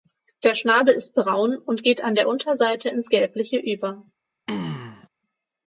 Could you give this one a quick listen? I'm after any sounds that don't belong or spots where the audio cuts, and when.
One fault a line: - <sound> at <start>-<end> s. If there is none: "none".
- throat clearing at 4.5-5.1 s